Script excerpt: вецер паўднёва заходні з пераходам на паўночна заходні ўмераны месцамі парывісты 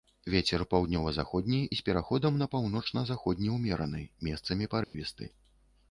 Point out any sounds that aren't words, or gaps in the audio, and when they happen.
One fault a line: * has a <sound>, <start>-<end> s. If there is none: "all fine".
* has a dropout, 4.8-4.9 s